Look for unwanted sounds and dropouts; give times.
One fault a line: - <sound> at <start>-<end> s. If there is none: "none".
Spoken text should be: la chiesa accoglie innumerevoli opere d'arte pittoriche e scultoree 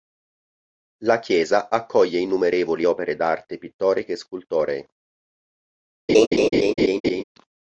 - laugh at 6.1-7.2 s